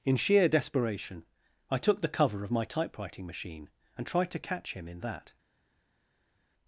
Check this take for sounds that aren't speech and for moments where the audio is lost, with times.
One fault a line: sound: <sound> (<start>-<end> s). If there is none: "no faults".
no faults